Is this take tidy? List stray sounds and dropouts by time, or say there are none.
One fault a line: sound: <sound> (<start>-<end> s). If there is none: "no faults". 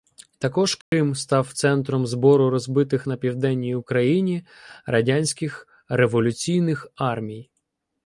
sound: dropout (0.8-0.9 s)